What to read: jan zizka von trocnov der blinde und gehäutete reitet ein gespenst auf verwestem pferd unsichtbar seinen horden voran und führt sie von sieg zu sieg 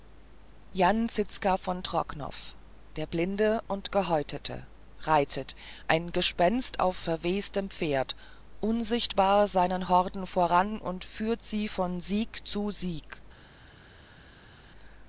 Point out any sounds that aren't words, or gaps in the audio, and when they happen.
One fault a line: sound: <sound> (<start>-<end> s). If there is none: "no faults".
no faults